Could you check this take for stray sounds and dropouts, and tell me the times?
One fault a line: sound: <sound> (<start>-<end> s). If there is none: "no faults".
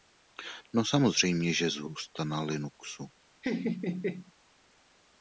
sound: laugh (3.4-4.3 s)